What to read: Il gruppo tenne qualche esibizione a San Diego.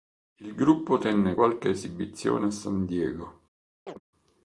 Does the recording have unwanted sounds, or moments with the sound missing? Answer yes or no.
yes